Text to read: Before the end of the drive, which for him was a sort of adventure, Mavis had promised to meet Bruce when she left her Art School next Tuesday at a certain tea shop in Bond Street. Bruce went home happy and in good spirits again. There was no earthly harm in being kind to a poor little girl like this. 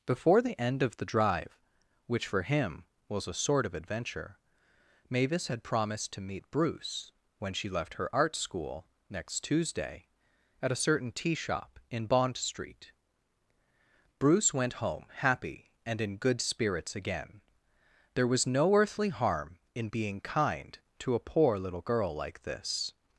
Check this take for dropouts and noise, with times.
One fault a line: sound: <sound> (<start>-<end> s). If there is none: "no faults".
no faults